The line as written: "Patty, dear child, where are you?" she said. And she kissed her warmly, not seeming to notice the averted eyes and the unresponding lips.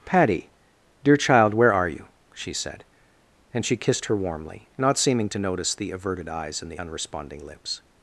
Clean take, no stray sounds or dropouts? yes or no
yes